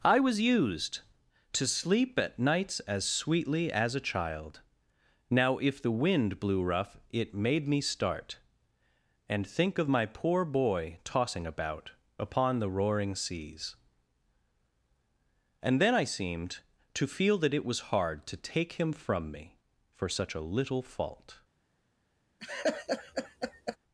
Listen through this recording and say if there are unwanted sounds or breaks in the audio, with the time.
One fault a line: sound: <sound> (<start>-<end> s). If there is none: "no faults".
sound: laugh (22.4-23.8 s)